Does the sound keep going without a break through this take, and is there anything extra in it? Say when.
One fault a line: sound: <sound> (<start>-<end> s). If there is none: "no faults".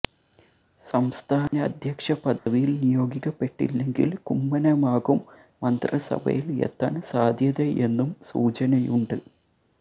sound: dropout (1.5-1.5 s)
sound: dropout (2.4-2.5 s)